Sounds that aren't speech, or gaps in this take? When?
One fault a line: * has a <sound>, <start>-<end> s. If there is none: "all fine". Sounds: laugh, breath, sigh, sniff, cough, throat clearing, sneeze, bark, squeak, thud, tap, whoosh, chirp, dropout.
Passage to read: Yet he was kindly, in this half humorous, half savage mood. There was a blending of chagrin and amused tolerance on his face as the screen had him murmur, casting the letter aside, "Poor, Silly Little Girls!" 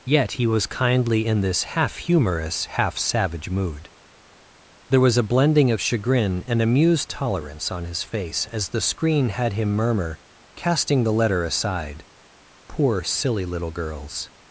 all fine